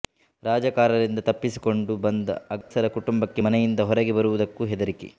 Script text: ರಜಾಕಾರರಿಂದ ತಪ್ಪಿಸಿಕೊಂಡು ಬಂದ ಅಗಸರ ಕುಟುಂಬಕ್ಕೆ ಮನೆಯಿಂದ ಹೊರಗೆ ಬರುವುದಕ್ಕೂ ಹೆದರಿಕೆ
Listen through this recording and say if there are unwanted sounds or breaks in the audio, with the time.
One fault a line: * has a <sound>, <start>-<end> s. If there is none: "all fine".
* has a dropout, 2.6-2.7 s